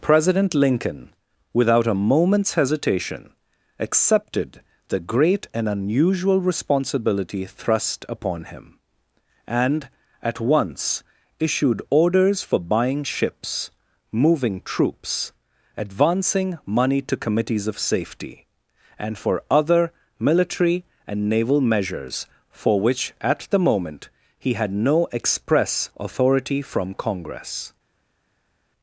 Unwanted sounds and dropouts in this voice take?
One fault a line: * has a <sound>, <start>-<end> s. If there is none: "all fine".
all fine